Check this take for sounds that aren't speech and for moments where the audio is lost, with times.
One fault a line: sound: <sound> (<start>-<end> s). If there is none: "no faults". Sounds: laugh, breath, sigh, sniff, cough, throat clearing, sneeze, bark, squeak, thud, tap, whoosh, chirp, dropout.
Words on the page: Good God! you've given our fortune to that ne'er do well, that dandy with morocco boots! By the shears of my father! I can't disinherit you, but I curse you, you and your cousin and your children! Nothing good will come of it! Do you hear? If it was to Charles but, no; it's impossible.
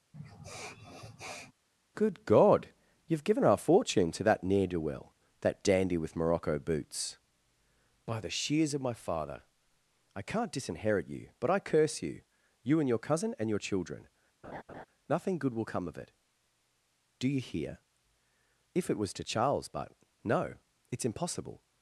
sound: sniff (0.1-1.5 s)
sound: laugh (14.4-14.9 s)